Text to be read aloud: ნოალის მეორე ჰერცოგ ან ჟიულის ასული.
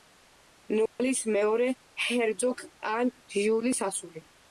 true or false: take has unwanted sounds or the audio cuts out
true